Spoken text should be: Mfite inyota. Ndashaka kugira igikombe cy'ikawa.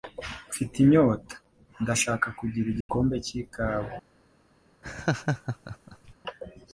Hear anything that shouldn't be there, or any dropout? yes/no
yes